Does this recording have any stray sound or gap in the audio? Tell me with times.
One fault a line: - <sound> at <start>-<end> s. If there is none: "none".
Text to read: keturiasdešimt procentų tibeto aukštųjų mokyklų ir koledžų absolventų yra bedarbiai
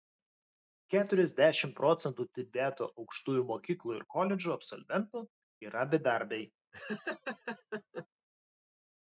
- laugh at 6.7-8.1 s